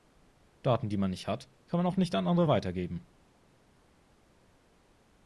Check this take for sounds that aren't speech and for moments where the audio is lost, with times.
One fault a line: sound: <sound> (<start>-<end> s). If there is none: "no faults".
no faults